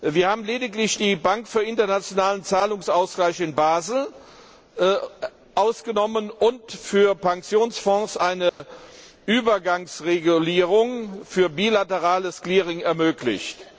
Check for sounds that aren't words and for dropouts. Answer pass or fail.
fail